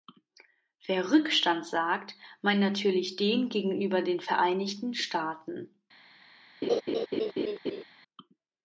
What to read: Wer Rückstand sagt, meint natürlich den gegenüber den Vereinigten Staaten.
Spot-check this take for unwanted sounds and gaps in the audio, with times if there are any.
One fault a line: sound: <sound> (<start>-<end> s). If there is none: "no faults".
sound: laugh (6.6-7.8 s)